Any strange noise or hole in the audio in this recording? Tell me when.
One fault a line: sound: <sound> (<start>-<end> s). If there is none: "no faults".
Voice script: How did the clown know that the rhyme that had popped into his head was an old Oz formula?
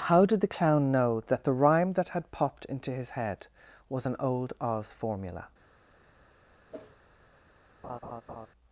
sound: whoosh (6.7-7.0 s)
sound: laugh (7.8-8.5 s)